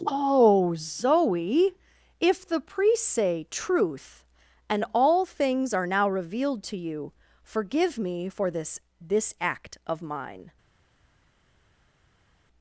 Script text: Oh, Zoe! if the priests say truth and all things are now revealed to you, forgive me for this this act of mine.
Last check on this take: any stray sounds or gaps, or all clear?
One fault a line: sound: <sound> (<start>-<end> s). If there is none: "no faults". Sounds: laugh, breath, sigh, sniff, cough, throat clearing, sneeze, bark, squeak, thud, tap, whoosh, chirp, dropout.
no faults